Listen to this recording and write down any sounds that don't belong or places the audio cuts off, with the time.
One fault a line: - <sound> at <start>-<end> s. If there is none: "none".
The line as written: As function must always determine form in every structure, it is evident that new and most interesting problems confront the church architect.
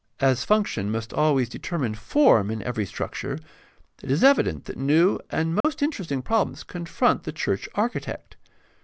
- dropout at 5.6-5.6 s